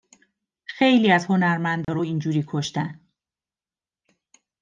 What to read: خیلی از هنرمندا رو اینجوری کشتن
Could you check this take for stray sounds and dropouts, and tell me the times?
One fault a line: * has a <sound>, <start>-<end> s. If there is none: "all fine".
* has a dropout, 1.8-1.9 s